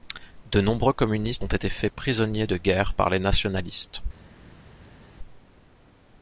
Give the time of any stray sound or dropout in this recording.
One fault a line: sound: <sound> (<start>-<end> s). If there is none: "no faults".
no faults